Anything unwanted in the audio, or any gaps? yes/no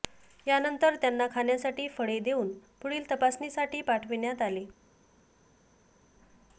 no